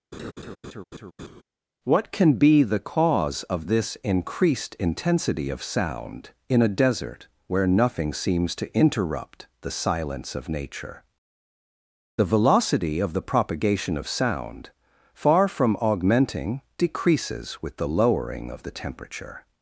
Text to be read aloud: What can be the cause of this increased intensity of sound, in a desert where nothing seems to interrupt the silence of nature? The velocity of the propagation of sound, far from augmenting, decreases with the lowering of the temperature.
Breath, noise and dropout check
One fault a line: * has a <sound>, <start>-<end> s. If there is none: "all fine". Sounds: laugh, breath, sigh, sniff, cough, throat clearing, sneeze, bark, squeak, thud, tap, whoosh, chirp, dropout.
* has a laugh, 0.1-1.4 s